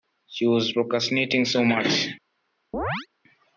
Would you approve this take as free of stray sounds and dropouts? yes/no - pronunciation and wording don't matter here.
no